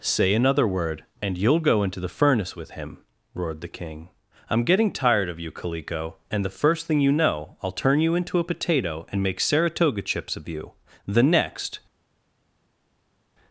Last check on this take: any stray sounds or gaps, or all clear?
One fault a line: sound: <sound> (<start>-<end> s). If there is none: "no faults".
no faults